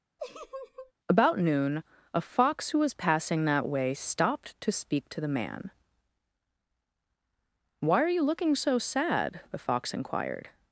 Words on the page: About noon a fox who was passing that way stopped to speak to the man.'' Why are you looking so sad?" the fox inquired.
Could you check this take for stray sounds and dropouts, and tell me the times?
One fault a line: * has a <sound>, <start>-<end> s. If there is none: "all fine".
* has a laugh, 0.2-0.9 s